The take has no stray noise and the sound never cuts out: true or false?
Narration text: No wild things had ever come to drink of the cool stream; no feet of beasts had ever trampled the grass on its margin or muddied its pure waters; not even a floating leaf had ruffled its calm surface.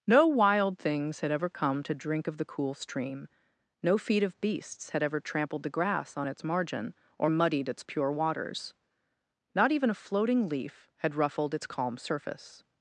true